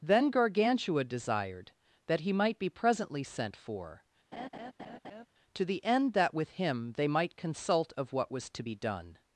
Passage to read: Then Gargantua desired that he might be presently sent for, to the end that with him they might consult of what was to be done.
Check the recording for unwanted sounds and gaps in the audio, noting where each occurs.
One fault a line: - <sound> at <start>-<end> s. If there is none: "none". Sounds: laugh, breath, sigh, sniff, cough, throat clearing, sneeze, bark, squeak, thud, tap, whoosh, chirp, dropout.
- laugh at 4.3-5.3 s